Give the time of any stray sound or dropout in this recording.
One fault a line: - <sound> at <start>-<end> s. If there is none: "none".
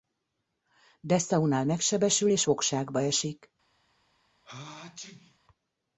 - sneeze at 4.4-5.4 s